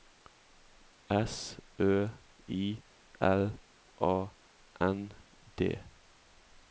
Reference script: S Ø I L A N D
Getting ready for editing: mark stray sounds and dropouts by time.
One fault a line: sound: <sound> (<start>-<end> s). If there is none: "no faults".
no faults